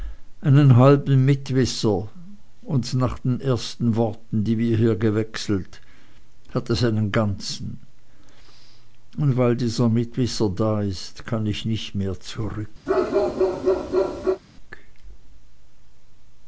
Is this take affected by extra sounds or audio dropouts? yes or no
yes